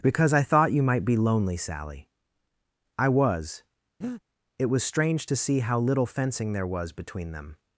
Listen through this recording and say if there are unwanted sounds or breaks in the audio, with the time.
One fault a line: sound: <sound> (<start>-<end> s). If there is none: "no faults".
sound: breath (4.0-4.2 s)